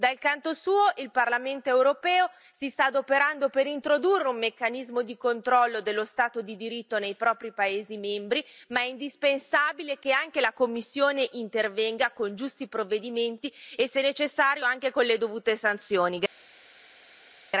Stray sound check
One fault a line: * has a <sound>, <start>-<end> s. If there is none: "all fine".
all fine